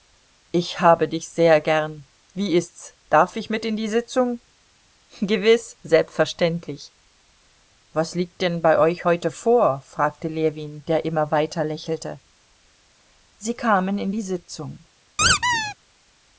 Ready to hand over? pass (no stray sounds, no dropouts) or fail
fail